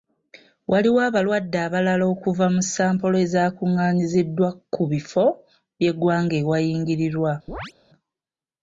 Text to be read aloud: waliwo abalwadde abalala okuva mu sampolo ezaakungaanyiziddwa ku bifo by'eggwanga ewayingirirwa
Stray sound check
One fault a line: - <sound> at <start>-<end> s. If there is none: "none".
- chirp at 7.5-7.7 s